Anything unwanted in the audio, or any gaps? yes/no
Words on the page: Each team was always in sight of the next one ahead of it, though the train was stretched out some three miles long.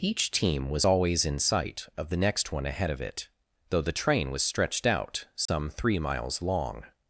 yes